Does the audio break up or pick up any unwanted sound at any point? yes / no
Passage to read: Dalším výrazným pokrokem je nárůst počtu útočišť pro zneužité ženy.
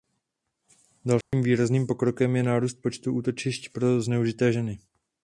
yes